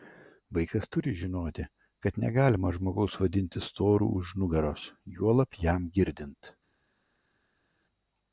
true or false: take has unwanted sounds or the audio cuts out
false